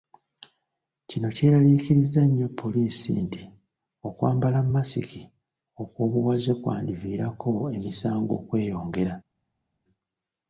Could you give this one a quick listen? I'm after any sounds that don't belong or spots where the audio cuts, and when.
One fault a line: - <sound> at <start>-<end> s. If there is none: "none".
none